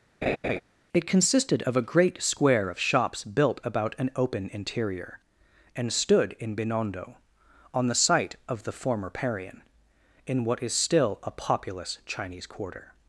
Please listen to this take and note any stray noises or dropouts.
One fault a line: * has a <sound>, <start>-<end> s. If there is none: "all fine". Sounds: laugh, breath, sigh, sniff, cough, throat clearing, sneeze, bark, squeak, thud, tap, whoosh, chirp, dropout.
* has a laugh, 0.2-0.6 s